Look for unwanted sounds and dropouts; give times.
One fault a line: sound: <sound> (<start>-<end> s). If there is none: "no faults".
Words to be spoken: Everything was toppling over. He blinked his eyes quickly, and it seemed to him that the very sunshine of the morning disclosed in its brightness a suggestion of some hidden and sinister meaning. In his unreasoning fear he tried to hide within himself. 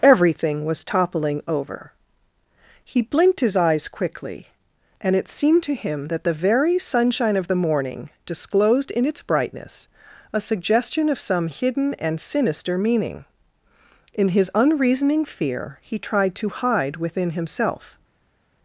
no faults